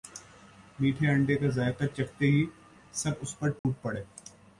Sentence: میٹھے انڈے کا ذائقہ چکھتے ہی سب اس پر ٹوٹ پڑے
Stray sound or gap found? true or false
true